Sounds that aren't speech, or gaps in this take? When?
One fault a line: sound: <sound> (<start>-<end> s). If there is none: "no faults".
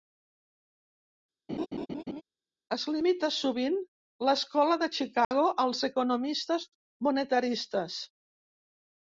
sound: laugh (1.5-2.2 s)
sound: dropout (5.2-5.3 s)